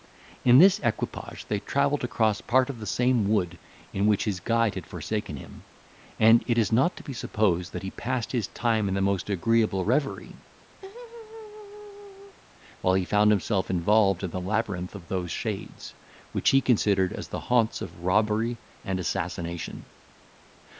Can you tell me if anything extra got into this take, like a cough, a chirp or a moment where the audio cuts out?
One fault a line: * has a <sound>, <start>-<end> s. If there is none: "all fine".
* has a laugh, 10.8-12.4 s